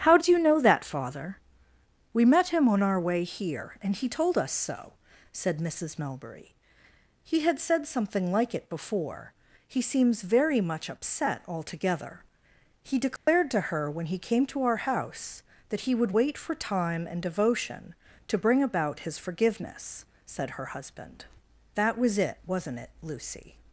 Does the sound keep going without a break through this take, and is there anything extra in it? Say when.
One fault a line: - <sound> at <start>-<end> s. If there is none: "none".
- dropout at 13.2-13.3 s